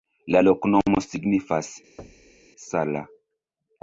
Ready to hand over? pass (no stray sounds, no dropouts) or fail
fail